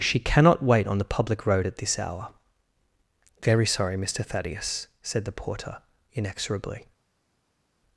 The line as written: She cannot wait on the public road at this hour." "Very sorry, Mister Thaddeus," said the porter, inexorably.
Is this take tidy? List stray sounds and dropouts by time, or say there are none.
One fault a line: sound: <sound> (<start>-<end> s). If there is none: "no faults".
no faults